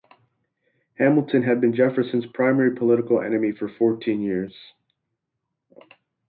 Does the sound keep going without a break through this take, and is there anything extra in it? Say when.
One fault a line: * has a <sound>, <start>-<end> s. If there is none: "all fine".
all fine